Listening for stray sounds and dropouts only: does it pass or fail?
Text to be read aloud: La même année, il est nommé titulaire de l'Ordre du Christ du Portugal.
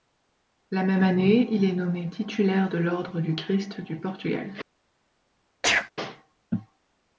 fail